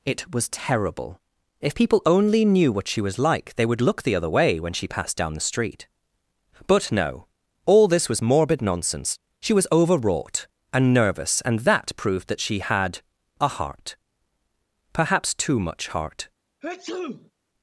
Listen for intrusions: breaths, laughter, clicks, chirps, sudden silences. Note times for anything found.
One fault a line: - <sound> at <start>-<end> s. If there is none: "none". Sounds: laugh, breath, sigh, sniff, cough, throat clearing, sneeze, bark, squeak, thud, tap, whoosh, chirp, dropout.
- sneeze at 16.6-17.3 s